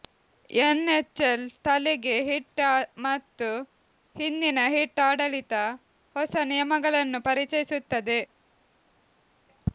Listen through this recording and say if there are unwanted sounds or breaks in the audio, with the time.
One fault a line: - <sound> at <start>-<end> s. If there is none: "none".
none